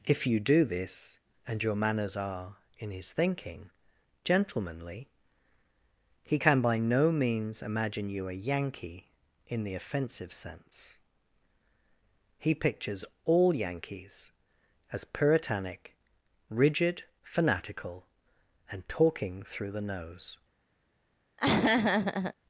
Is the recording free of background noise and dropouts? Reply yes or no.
no